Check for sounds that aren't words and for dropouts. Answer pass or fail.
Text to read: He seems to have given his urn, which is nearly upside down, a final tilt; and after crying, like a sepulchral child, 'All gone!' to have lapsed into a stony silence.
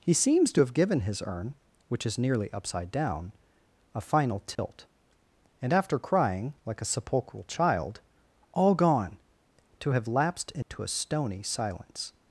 fail